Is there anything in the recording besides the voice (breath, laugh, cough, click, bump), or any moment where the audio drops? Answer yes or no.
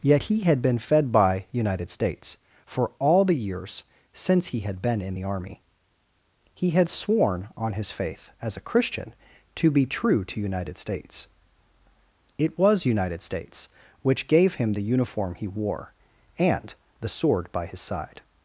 no